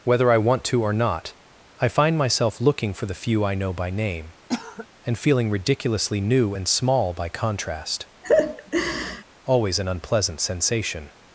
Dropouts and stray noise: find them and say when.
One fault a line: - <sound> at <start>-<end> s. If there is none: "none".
- cough at 4.5-4.9 s
- laugh at 8.2-9.2 s